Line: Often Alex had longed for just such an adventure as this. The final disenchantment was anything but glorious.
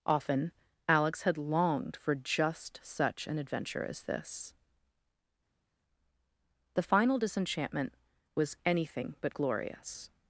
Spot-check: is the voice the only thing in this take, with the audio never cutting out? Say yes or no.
yes